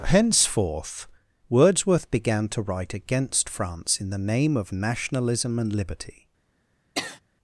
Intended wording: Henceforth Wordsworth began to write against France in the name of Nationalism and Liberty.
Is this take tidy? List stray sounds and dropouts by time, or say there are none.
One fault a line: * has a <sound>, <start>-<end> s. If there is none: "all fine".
* has a sniff, 7.0-7.2 s